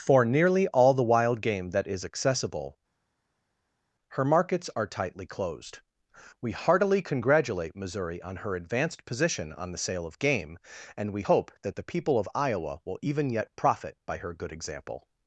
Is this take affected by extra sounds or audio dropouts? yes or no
no